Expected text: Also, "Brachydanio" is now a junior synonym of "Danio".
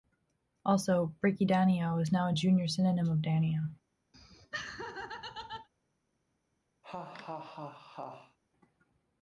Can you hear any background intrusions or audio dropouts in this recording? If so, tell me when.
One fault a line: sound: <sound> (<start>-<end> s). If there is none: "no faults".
sound: laugh (4.1-5.7 s)
sound: laugh (6.8-8.4 s)